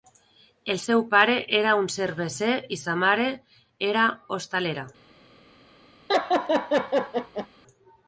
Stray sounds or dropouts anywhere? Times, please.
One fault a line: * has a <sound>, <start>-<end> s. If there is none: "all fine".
* has a laugh, 6.1-7.5 s